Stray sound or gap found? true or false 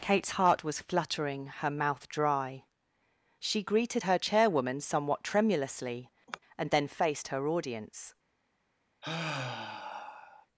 true